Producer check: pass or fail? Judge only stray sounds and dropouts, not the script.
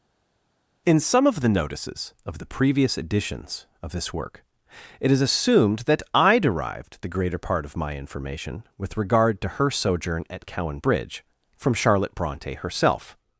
pass